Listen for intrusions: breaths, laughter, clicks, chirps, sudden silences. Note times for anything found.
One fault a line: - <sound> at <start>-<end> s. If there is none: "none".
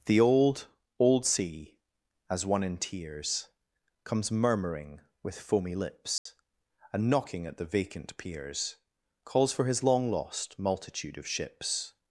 - dropout at 6.2-6.3 s